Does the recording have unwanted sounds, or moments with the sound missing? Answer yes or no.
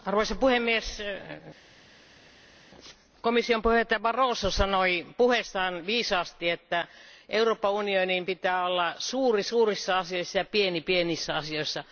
no